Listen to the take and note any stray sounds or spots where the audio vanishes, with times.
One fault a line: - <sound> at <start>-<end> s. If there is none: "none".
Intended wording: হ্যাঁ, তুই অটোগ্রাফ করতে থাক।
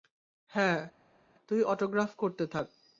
none